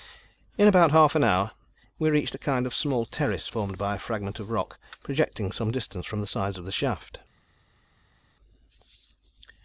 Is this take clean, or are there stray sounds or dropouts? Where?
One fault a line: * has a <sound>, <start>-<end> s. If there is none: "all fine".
all fine